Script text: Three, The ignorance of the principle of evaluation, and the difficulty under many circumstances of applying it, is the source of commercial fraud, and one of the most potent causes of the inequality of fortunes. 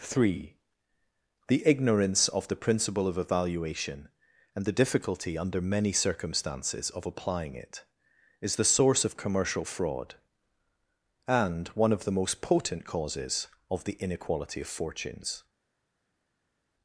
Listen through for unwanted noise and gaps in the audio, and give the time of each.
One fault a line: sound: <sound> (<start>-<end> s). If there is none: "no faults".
no faults